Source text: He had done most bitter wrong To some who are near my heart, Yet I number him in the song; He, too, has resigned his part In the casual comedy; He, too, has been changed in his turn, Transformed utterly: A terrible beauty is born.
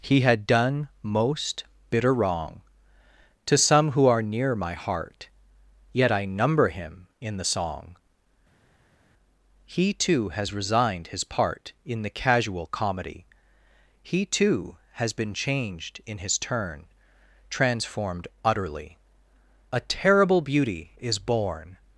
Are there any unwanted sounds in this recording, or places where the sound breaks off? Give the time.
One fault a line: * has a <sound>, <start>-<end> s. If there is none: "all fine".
all fine